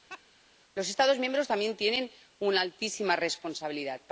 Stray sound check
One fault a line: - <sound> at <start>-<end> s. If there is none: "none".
- laugh at 0.1-0.2 s